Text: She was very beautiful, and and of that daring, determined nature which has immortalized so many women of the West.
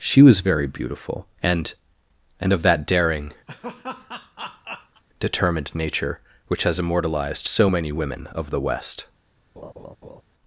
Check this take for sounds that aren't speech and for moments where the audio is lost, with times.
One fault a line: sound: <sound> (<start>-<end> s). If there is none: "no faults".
sound: laugh (3.5-5.0 s)
sound: laugh (9.6-10.2 s)